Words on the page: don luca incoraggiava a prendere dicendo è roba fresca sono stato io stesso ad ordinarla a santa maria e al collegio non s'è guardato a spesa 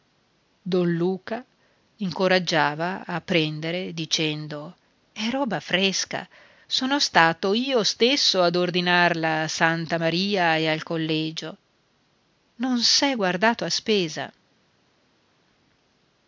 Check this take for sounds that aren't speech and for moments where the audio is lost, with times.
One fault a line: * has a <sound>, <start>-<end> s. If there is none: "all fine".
all fine